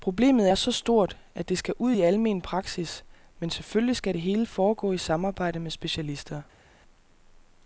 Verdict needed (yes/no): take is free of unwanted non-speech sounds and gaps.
yes